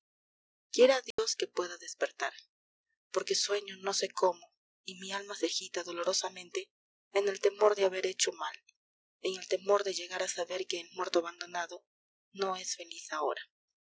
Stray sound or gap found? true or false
true